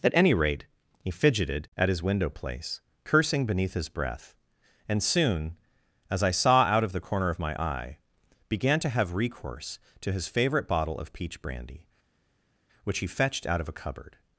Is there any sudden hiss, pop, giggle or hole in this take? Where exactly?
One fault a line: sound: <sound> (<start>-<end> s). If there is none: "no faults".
no faults